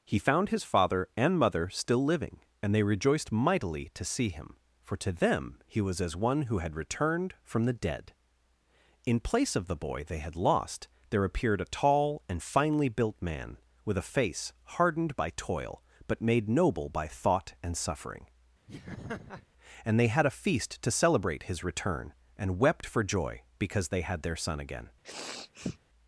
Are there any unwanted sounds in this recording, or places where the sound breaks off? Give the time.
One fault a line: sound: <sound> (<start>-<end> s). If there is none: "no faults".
sound: laugh (18.7-19.5 s)
sound: sniff (25.0-25.8 s)